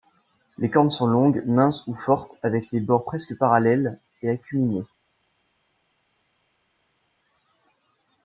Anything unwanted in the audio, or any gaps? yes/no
no